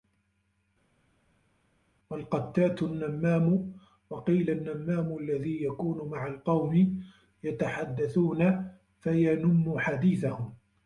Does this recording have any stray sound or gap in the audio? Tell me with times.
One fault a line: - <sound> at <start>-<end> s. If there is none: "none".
none